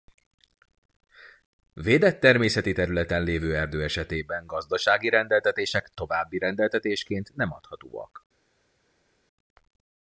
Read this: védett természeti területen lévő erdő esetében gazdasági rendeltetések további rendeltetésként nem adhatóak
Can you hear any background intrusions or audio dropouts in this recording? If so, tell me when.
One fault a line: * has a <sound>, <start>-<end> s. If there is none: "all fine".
all fine